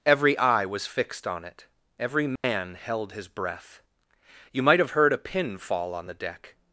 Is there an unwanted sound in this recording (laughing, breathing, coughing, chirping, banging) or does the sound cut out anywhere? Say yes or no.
yes